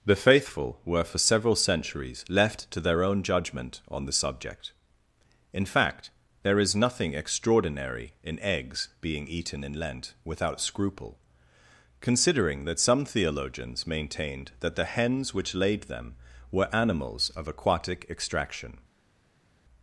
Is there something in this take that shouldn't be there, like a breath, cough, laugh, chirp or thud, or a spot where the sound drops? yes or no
no